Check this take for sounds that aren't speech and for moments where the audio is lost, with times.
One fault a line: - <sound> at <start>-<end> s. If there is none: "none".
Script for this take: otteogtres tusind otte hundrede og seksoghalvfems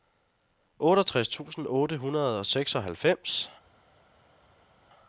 none